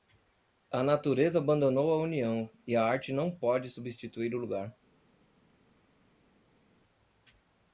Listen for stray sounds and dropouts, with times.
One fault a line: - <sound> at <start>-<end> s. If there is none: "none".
none